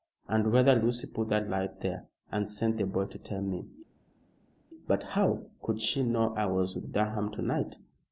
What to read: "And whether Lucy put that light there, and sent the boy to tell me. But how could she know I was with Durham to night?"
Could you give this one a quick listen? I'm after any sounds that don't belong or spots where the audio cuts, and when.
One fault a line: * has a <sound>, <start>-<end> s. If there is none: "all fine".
all fine